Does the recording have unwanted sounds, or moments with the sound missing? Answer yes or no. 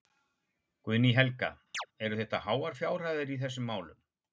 yes